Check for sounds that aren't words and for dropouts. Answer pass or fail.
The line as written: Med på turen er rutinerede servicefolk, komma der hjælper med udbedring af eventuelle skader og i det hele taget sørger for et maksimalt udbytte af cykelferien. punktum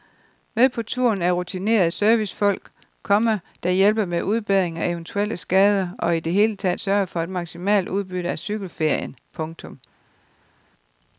pass